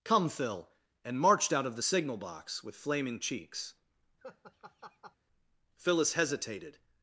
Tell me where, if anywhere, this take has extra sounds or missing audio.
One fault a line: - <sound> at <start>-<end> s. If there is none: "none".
- laugh at 4.2-5.2 s